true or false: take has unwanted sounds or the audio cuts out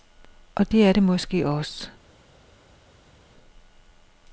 false